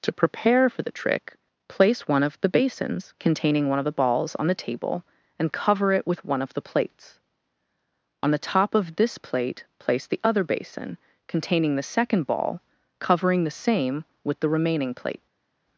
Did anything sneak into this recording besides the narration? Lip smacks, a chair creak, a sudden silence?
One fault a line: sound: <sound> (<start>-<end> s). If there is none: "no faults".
no faults